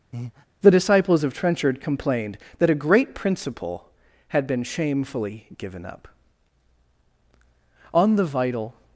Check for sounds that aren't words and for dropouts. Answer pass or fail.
fail